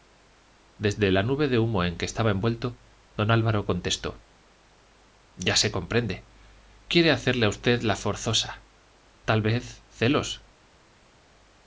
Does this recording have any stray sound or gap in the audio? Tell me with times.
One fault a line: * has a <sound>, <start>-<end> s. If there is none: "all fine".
all fine